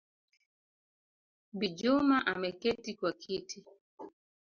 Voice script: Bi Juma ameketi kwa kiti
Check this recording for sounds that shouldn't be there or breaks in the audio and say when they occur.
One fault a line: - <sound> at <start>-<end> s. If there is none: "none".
none